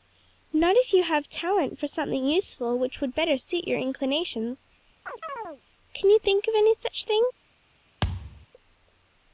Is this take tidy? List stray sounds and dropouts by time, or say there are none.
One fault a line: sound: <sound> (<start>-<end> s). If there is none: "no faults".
sound: chirp (5.1-5.6 s)
sound: thud (8.0-8.5 s)